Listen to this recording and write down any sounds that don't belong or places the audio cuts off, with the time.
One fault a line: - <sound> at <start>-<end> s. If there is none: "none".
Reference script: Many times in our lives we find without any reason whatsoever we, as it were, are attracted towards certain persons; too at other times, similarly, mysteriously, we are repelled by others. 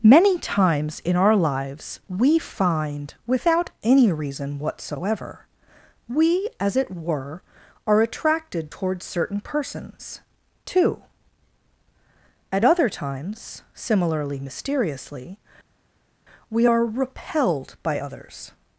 none